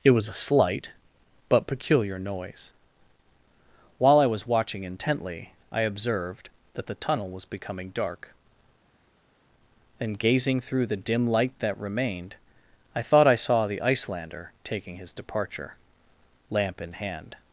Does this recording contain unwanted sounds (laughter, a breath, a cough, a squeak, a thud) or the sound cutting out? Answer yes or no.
no